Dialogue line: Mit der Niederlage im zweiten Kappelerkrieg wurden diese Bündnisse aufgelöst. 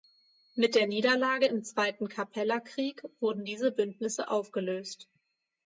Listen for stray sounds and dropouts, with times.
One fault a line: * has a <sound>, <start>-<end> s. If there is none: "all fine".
all fine